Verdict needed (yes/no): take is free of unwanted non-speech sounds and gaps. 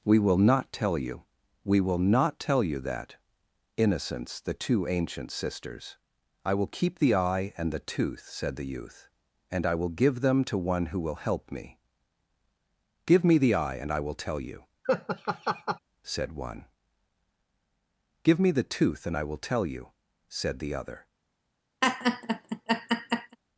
no